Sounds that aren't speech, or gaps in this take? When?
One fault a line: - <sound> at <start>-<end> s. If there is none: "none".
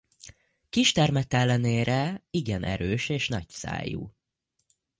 none